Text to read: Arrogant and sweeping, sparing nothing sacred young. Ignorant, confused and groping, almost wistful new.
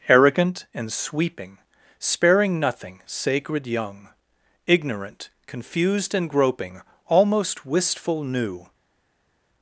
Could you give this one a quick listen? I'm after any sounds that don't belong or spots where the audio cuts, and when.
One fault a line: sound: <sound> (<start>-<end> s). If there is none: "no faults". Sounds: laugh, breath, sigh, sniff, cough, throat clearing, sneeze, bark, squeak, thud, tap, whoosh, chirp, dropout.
no faults